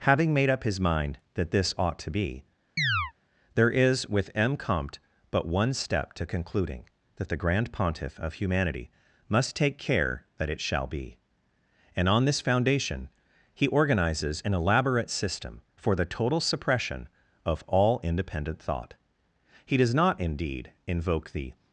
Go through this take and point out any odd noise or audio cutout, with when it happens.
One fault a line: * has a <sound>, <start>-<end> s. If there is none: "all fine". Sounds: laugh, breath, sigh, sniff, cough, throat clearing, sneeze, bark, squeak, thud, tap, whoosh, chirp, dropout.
* has a chirp, 2.8-3.1 s